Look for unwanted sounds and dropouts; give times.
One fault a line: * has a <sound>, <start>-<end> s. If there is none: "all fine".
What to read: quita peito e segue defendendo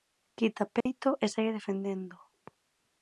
* has a dropout, 0.8-0.9 s